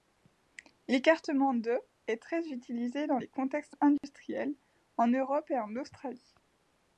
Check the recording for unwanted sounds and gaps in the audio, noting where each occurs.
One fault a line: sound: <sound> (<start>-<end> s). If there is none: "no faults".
sound: dropout (4.0-4.0 s)